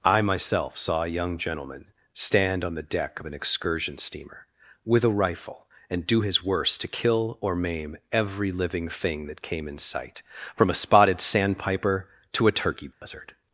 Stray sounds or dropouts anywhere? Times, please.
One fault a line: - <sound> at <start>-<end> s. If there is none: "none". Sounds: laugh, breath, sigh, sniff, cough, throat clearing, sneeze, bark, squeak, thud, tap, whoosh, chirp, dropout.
- dropout at 12.9-13.0 s